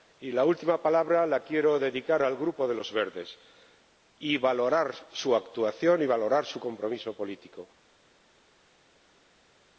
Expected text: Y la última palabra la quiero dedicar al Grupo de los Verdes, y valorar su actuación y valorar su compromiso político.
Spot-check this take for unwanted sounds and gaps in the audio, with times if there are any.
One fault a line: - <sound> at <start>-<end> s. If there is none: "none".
none